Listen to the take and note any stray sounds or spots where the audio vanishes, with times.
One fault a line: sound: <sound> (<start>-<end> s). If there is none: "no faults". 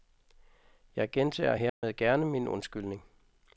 sound: dropout (1.7-1.8 s)